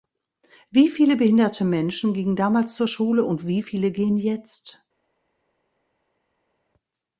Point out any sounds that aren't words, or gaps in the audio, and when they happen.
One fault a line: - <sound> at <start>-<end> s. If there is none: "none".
none